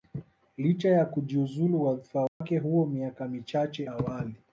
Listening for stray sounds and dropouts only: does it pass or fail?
fail